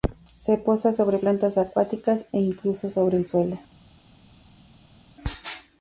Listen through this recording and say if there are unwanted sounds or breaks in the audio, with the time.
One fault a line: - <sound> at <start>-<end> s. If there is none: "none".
none